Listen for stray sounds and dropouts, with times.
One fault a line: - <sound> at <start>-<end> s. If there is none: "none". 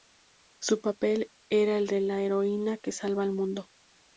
none